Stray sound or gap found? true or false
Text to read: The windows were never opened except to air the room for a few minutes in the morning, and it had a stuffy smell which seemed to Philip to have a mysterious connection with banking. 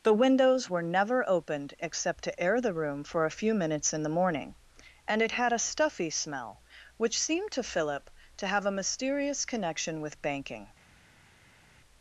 false